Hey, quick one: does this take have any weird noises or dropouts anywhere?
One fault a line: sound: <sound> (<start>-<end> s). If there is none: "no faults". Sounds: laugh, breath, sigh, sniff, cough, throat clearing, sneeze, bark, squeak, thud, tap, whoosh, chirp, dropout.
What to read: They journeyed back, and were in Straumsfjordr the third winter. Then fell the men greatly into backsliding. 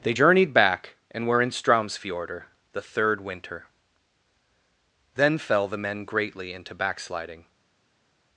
no faults